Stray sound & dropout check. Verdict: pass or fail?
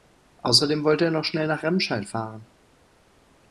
pass